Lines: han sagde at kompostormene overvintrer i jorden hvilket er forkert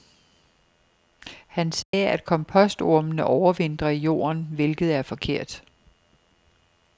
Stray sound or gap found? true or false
true